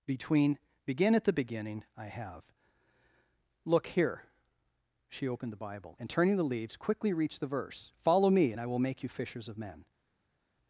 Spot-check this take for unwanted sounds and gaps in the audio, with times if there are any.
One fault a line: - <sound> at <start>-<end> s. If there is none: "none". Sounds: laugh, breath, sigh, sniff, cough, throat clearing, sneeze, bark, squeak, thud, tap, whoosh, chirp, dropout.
none